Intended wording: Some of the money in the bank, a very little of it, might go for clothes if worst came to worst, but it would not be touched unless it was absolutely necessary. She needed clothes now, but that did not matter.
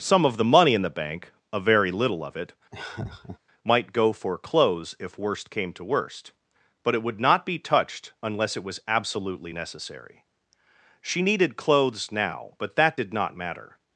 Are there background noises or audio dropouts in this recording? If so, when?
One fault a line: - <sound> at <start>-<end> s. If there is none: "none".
- laugh at 2.7-3.4 s